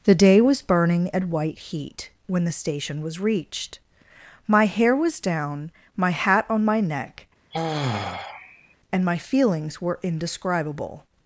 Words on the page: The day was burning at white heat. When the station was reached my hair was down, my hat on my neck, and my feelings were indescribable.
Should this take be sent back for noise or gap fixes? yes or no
yes